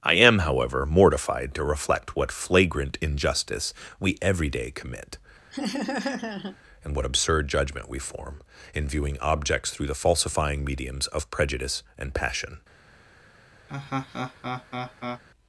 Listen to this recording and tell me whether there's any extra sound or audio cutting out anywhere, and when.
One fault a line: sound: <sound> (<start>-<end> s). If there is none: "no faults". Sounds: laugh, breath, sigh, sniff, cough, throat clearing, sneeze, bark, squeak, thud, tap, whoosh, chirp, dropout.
sound: laugh (5.5-6.6 s)
sound: laugh (13.7-15.2 s)